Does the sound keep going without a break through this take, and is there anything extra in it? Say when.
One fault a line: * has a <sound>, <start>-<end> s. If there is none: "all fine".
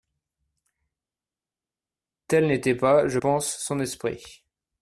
all fine